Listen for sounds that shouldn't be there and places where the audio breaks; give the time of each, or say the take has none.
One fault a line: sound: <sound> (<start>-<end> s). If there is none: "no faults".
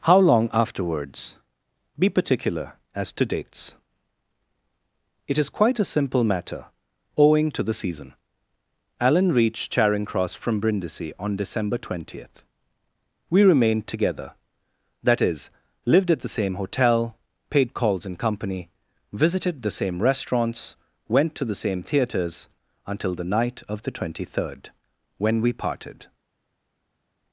no faults